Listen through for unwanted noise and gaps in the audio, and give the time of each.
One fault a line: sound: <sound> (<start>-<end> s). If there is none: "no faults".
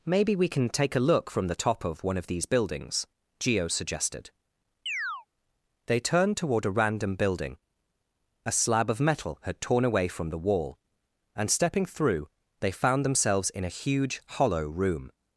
sound: chirp (4.9-5.3 s)